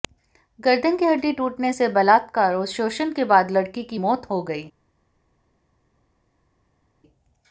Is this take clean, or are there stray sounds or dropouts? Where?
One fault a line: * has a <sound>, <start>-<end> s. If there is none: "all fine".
all fine